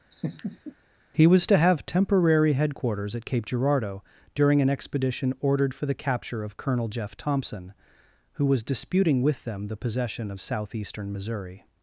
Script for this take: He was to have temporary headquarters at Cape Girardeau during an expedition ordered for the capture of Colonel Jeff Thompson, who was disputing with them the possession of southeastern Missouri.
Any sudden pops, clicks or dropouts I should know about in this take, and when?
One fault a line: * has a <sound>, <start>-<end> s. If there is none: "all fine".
* has a laugh, 0.1-0.7 s